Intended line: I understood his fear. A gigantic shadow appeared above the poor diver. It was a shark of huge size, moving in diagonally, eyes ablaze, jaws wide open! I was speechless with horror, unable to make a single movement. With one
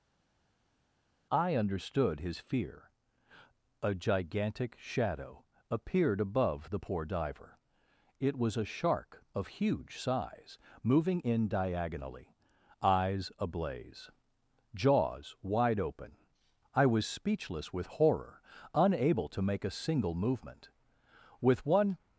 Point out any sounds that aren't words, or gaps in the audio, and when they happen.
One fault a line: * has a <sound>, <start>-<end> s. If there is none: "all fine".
all fine